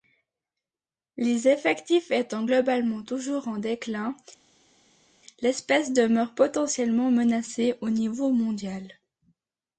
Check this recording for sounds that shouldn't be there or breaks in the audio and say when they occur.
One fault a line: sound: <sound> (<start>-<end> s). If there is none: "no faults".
no faults